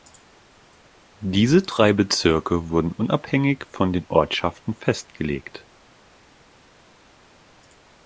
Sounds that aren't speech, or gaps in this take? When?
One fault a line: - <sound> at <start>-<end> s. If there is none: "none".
none